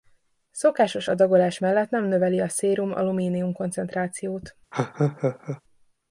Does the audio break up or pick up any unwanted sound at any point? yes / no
yes